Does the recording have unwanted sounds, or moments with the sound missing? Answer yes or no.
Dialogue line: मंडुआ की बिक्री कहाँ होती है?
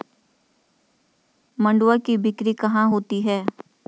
no